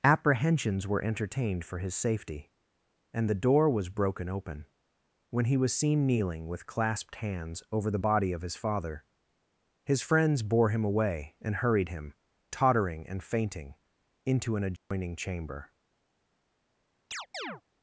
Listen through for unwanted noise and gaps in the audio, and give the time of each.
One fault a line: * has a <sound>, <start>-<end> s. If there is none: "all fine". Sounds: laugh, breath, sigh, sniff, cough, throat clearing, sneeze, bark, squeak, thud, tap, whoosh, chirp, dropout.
* has a dropout, 14.8-14.9 s
* has a chirp, 17.1-17.6 s